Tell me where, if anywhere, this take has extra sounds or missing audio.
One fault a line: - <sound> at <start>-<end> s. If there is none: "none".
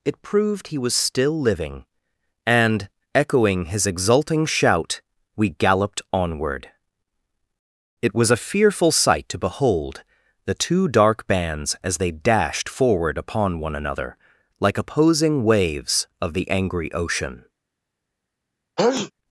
- sneeze at 18.8-19.1 s